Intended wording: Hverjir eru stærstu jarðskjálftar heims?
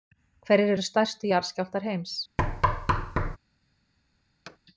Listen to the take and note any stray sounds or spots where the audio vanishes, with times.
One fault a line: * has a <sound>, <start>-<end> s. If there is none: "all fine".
* has a thud, 2.4-3.4 s
* has a thud, 4.5-4.6 s